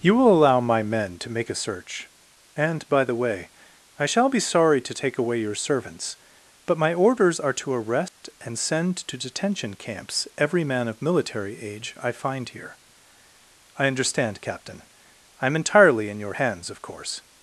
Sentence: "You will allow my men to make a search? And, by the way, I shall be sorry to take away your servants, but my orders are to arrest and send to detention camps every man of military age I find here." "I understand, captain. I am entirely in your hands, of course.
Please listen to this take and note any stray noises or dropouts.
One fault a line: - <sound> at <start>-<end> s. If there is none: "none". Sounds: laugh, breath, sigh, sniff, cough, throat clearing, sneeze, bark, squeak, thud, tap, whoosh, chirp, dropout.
- dropout at 8.1-8.2 s